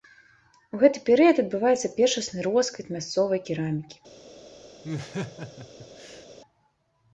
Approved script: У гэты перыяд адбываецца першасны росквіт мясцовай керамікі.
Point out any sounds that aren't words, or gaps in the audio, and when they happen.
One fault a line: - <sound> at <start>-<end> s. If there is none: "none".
- laugh at 4.8-6.3 s